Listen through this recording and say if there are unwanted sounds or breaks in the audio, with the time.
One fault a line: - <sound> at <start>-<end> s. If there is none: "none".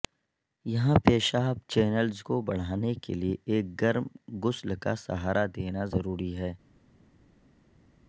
none